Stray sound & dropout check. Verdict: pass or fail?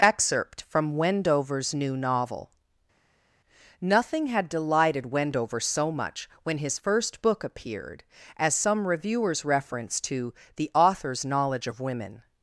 pass